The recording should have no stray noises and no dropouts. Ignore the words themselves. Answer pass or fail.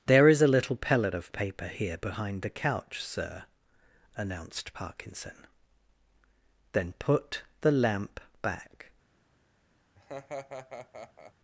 fail